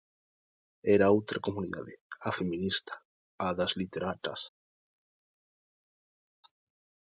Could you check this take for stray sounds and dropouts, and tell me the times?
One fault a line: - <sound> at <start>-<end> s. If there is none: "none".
none